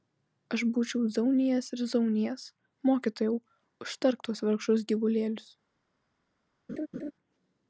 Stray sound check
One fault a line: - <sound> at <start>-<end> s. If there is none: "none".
- laugh at 6.7-7.1 s